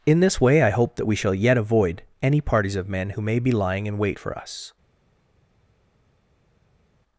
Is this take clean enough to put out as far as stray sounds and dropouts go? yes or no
yes